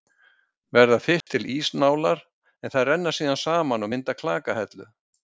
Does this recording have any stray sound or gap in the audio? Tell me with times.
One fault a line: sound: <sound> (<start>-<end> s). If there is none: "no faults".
sound: dropout (1.2-1.3 s)